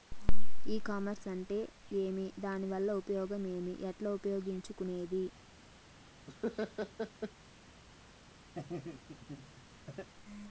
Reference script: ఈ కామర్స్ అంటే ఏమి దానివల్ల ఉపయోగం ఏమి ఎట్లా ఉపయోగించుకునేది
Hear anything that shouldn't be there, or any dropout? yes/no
yes